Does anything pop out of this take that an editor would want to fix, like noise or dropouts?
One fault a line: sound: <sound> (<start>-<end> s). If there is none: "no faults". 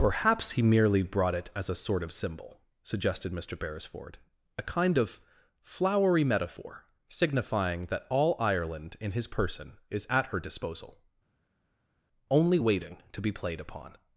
no faults